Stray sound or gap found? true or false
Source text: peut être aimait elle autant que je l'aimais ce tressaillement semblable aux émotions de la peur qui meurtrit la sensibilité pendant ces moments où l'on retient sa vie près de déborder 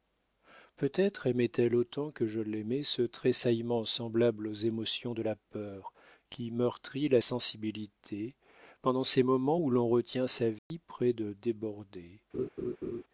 true